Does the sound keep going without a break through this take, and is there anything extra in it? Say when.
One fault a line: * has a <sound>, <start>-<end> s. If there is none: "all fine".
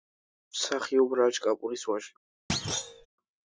* has a thud, 2.5-3.1 s